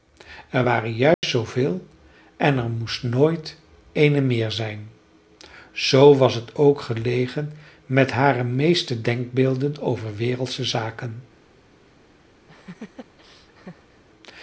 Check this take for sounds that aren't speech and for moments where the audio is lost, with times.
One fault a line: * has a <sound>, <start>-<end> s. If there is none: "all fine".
* has a dropout, 1.1-1.2 s
* has a laugh, 12.5-14.0 s